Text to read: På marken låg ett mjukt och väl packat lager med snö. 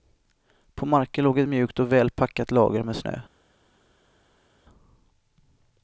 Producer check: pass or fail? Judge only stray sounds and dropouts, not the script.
pass